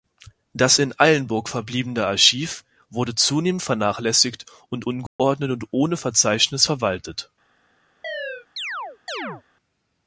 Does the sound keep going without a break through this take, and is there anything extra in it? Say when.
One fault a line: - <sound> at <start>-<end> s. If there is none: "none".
- dropout at 5.1-5.2 s
- chirp at 8.0-9.4 s